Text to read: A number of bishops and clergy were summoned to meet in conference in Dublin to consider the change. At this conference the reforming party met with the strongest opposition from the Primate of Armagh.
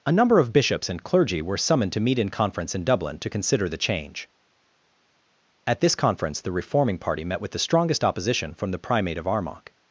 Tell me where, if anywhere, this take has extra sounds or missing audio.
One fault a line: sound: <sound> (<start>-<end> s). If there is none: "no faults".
no faults